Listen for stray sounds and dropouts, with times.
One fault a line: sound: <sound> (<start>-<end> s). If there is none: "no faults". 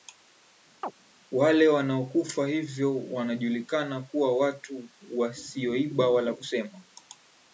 sound: chirp (0.8-0.9 s)